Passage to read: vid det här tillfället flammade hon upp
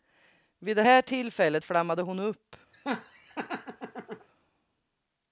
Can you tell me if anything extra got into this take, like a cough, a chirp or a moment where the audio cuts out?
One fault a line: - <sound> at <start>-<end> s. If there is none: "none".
- laugh at 2.7-4.3 s